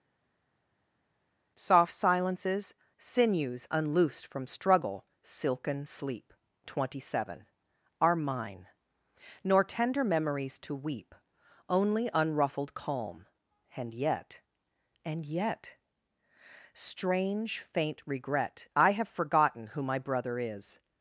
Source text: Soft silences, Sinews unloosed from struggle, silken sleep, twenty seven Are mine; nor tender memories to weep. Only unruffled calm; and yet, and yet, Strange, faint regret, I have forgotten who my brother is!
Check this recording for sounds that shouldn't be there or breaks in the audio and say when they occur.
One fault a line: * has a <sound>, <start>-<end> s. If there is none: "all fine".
all fine